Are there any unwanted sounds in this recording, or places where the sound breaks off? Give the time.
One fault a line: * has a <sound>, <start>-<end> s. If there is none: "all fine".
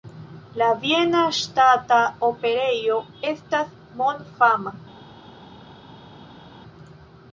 all fine